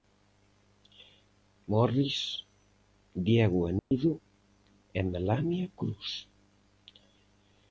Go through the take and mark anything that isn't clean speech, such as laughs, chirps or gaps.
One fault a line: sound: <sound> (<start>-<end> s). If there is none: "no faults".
sound: dropout (3.8-3.9 s)